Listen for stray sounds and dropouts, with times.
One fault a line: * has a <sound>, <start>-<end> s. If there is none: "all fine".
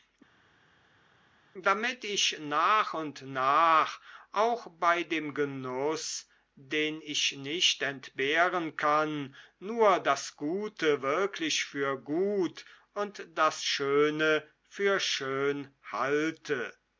all fine